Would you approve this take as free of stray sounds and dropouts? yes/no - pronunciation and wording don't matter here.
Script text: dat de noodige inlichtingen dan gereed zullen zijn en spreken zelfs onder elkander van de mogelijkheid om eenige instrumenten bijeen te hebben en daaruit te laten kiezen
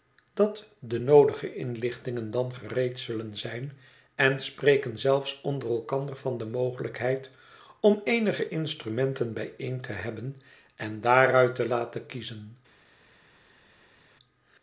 yes